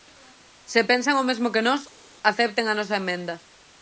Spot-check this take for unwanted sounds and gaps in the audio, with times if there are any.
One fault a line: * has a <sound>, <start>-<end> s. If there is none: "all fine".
all fine